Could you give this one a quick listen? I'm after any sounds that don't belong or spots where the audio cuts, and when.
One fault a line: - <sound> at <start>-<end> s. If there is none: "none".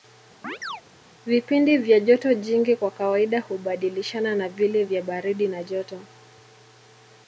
- chirp at 0.4-0.8 s